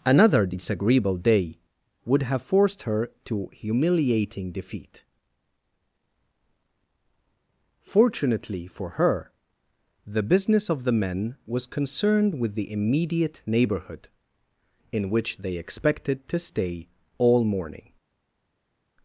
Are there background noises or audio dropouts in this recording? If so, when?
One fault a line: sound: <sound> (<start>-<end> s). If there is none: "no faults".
no faults